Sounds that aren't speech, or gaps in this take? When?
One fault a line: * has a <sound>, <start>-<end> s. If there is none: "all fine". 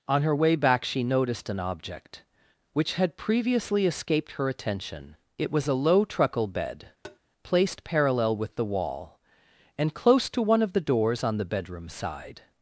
* has a tap, 7.0-7.2 s